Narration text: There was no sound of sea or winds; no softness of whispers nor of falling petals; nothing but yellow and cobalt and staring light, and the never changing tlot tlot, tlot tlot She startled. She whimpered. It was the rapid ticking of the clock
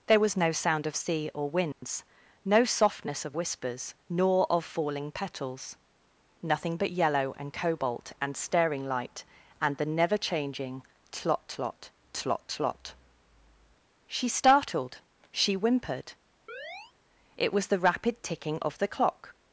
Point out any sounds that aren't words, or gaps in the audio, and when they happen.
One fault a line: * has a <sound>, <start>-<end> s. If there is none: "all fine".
* has a dropout, 1.7-1.8 s
* has a chirp, 16.5-16.9 s